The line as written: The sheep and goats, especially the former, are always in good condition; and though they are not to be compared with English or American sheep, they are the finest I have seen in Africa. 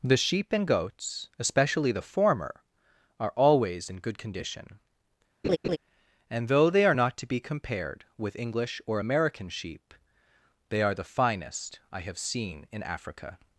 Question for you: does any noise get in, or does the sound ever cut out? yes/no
yes